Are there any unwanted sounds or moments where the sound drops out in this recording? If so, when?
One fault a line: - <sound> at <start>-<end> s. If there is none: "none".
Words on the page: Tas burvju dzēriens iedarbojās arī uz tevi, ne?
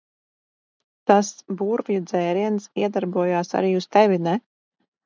none